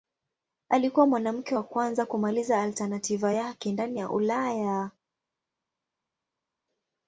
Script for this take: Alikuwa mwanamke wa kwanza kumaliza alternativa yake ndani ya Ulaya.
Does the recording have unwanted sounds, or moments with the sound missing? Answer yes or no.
no